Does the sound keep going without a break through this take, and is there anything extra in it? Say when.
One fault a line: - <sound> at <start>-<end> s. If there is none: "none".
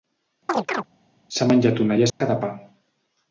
- chirp at 0.5-0.9 s
- dropout at 2.1-2.2 s